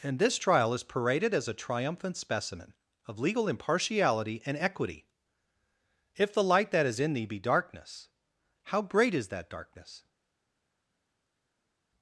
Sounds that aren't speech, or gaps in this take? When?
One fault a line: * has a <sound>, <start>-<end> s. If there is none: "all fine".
all fine